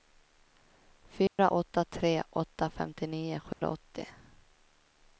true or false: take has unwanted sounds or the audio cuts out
true